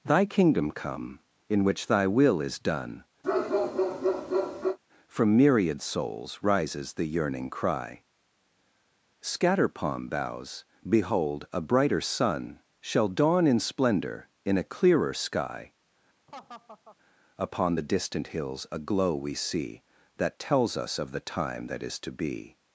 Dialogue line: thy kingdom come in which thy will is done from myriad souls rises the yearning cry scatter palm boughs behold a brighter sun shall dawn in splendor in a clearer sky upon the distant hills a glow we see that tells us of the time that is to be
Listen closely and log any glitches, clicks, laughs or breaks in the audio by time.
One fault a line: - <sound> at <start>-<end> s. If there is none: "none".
- bark at 3.2-4.8 s
- laugh at 16.3-17.0 s